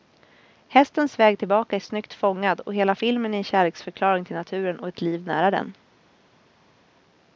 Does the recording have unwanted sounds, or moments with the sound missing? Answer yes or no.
no